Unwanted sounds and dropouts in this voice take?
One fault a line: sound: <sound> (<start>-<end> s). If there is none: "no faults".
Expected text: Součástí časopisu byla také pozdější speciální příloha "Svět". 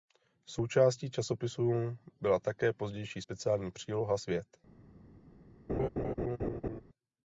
sound: laugh (5.7-6.8 s)